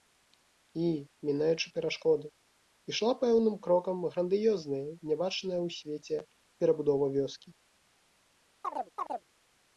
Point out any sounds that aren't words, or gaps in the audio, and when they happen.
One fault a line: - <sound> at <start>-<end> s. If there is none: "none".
- chirp at 8.6-9.2 s